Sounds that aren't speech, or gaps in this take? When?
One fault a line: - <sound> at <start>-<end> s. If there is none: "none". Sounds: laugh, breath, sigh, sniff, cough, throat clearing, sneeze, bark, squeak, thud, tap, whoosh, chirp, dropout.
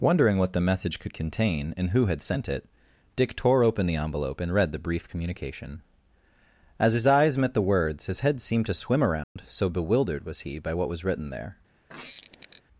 - dropout at 9.2-9.4 s
- squeak at 11.9-12.6 s